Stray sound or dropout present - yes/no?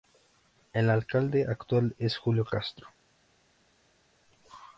no